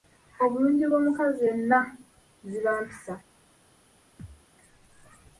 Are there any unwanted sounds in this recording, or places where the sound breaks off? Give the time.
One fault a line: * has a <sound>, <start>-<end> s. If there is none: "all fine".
* has a thud, 4.2-4.5 s